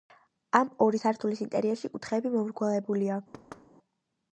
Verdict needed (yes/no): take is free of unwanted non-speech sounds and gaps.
no